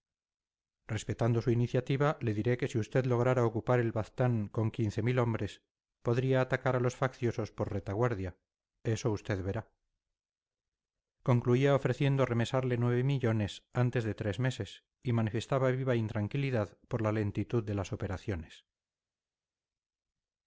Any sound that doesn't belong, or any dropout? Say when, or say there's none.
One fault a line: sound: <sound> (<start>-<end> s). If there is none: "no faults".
no faults